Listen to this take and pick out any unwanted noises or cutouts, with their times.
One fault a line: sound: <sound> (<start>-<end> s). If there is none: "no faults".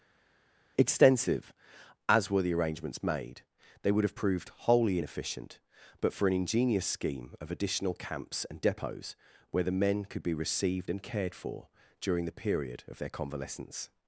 no faults